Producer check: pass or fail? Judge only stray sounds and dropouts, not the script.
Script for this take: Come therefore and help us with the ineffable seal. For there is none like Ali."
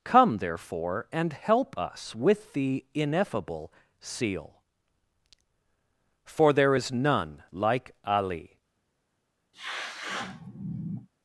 fail